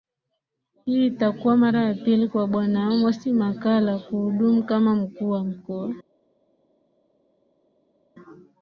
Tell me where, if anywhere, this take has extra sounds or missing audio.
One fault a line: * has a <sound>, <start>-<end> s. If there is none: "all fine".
all fine